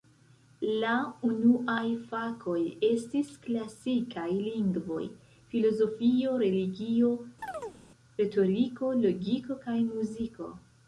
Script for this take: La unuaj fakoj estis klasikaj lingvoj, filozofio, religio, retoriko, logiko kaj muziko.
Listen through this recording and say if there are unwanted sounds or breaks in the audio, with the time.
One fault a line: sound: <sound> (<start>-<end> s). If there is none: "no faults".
sound: chirp (7.4-7.8 s)